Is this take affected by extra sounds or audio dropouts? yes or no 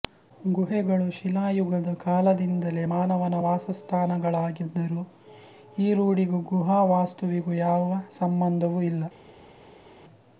no